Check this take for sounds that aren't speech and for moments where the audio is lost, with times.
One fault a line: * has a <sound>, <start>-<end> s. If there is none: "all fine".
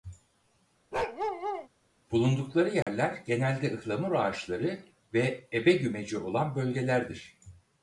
* has a bark, 0.9-1.7 s
* has a dropout, 2.8-2.9 s